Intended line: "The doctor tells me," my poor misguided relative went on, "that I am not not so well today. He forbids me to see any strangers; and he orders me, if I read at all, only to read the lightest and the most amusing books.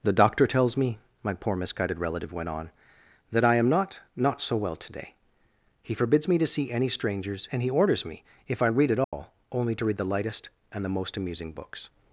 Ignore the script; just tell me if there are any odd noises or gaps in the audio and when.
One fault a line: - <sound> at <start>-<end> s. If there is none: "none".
- dropout at 9.0-9.1 s